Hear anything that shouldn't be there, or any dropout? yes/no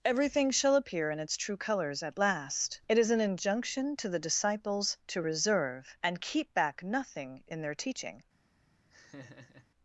yes